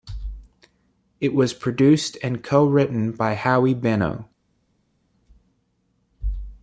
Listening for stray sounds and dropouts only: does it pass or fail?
pass